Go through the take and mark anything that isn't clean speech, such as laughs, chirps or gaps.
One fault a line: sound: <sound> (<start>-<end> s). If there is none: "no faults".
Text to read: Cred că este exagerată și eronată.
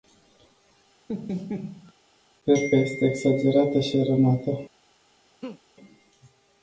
sound: laugh (1.1-1.9 s)
sound: laugh (5.4-5.6 s)